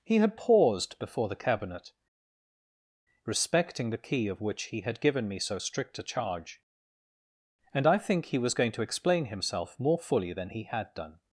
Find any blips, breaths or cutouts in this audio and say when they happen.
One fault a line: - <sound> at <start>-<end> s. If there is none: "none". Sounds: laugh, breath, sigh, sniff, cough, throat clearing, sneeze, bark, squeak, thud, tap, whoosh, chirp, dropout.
none